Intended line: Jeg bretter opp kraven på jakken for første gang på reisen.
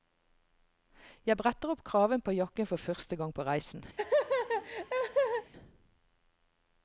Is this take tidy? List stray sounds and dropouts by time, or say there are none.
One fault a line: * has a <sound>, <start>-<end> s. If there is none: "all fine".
* has a laugh, 4.0-5.5 s